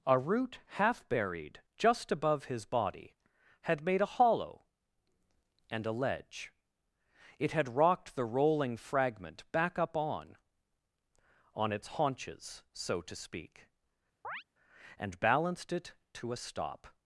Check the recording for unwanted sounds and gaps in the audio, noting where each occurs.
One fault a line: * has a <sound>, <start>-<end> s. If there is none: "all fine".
* has a chirp, 14.2-14.4 s